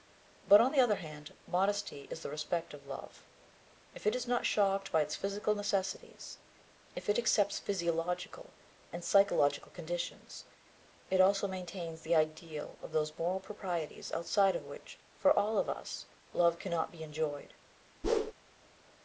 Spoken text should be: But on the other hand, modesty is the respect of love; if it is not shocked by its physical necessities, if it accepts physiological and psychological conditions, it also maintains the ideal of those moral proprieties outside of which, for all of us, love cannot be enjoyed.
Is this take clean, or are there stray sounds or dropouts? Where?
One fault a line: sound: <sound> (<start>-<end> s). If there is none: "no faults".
sound: whoosh (18.0-18.3 s)